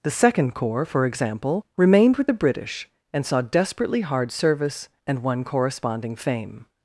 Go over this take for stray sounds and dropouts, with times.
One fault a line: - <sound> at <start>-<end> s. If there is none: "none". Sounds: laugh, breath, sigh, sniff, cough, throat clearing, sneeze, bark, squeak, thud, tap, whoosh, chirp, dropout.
none